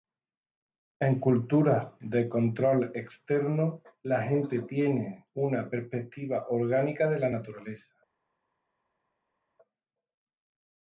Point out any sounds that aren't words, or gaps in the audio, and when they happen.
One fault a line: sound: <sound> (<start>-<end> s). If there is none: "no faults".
no faults